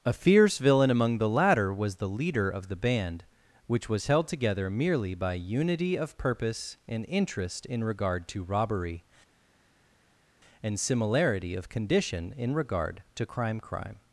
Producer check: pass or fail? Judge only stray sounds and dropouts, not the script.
pass